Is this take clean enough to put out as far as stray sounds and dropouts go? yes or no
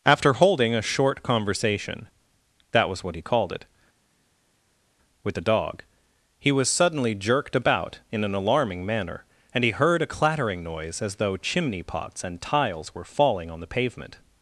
yes